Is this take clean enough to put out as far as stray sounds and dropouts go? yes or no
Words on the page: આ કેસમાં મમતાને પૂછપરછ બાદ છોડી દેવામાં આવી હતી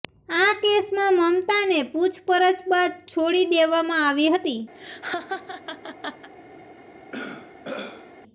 no